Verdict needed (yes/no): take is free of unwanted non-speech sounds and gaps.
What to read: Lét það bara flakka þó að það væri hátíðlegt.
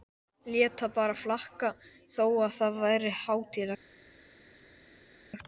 yes